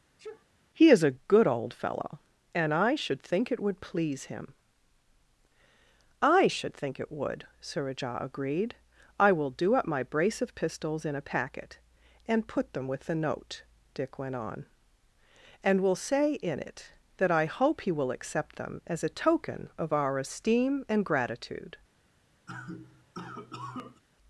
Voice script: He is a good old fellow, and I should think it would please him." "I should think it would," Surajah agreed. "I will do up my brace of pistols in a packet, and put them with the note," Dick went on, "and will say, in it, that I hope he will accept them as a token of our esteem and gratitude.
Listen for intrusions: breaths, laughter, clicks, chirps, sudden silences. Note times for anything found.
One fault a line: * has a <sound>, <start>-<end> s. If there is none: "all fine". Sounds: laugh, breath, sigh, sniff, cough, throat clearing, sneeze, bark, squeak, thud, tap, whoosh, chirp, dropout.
* has a sneeze, 0.2-0.5 s
* has a cough, 22.5-24.0 s